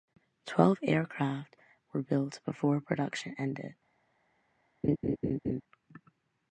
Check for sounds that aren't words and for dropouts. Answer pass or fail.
fail